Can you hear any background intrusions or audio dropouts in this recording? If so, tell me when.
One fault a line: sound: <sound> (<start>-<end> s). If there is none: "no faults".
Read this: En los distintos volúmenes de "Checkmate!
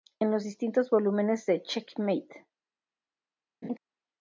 sound: laugh (3.6-3.8 s)